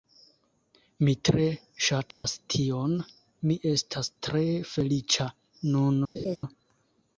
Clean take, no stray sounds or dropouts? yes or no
no